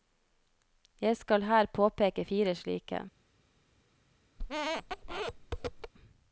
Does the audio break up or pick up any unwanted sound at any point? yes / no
yes